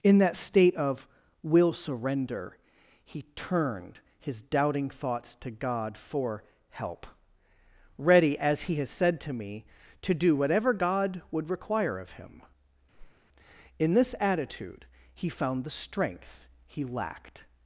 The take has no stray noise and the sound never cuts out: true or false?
false